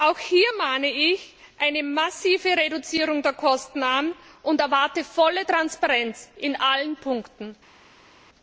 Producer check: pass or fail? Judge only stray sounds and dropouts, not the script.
pass